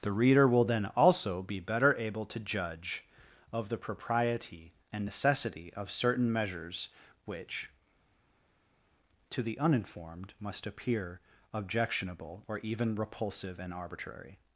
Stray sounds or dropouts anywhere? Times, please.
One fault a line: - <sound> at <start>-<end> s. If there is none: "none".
none